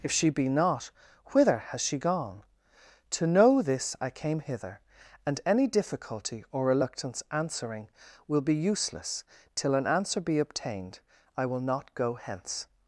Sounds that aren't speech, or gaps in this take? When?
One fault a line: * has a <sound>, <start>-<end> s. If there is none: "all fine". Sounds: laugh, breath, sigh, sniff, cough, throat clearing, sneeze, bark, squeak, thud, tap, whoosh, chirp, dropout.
all fine